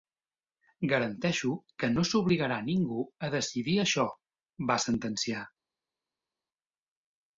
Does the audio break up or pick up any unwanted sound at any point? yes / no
no